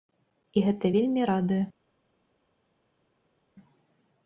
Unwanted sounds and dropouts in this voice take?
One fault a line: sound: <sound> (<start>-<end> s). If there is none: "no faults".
no faults